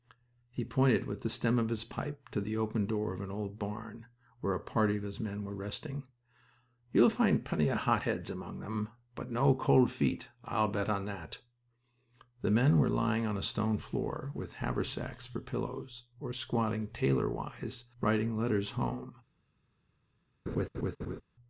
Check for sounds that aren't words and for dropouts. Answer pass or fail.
fail